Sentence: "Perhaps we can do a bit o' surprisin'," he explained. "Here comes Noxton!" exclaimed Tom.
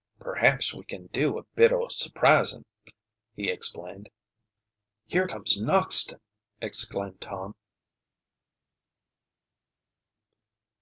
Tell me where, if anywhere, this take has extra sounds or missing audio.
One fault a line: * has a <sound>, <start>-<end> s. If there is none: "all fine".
all fine